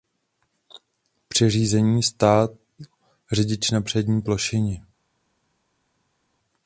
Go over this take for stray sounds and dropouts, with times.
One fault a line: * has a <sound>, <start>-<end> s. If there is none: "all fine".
all fine